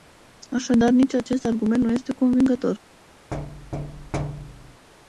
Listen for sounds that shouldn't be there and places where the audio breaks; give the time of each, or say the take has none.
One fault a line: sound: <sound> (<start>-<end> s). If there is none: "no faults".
sound: thud (3.3-4.9 s)